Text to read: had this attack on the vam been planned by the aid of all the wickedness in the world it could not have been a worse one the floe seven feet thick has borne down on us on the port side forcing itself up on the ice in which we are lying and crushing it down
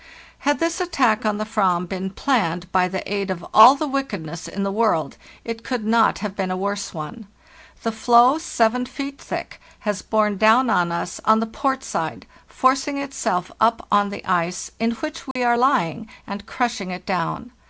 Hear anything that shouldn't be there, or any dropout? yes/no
yes